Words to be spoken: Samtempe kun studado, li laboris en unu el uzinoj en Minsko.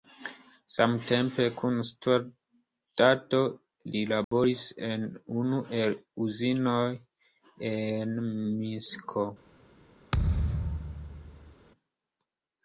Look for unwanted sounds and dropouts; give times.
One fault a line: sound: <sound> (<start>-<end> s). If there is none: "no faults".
sound: dropout (4.2-4.3 s)
sound: thud (10.1-11.6 s)